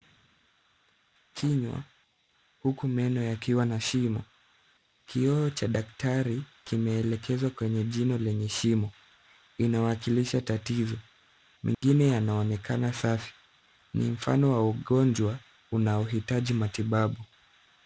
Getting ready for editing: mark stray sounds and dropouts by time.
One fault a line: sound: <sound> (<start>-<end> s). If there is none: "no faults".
sound: dropout (11.7-11.8 s)